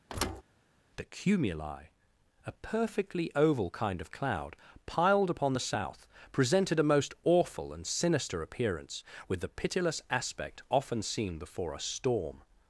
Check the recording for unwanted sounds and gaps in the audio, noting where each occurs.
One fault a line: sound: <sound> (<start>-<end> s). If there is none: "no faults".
sound: thud (0.1-0.4 s)